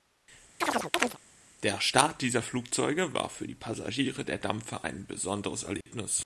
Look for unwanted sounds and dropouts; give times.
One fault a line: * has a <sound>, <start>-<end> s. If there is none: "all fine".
* has a chirp, 0.6-1.2 s
* has a dropout, 5.8-5.9 s